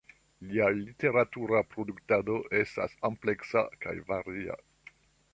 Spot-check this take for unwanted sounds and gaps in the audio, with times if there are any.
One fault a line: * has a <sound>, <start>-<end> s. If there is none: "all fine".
all fine